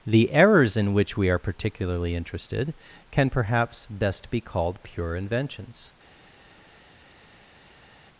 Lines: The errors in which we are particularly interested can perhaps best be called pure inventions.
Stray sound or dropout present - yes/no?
no